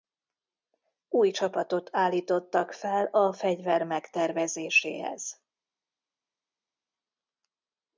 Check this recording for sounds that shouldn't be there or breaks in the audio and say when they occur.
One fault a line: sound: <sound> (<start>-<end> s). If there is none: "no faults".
no faults